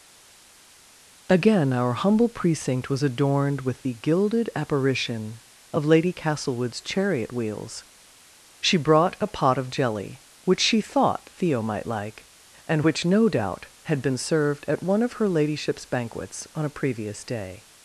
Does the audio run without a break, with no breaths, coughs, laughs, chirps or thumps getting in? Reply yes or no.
yes